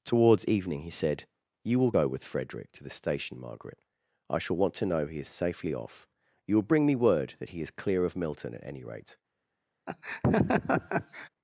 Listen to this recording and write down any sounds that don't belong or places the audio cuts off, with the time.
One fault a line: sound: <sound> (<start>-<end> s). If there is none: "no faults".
sound: laugh (9.9-11.3 s)